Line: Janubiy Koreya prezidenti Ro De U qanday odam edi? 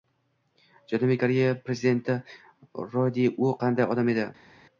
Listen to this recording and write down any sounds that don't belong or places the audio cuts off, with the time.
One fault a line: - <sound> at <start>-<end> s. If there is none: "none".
none